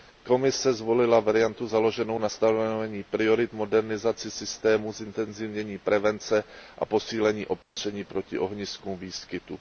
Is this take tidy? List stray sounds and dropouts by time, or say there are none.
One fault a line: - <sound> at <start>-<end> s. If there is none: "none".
- dropout at 7.6-7.8 s